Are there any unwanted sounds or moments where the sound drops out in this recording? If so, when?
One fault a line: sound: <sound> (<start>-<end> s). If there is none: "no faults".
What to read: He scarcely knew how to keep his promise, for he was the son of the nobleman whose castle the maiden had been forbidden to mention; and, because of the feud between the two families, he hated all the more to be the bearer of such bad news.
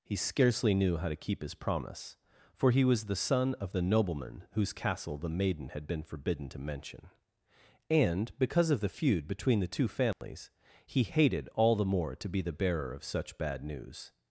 sound: dropout (10.1-10.2 s)